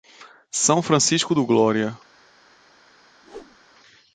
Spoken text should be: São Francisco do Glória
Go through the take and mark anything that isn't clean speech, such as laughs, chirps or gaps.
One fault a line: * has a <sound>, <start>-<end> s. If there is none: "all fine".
* has a whoosh, 3.2-3.6 s